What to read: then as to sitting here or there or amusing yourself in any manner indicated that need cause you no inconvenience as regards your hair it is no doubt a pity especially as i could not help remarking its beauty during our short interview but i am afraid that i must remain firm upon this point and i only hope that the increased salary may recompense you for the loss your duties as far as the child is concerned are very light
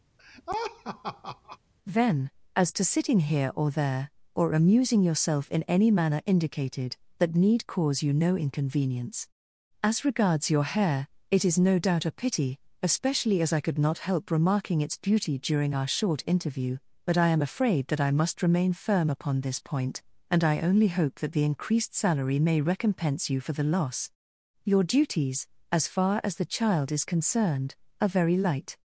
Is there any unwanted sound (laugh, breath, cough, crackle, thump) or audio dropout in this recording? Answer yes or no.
yes